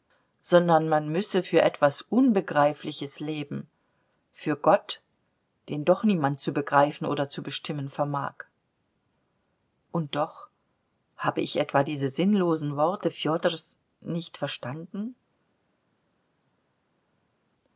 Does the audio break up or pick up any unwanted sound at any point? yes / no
no